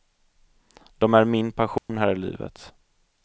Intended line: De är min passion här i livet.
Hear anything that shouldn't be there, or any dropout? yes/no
yes